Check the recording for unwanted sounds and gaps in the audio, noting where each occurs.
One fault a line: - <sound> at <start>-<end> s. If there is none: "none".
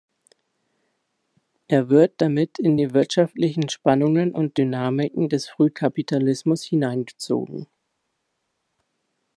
none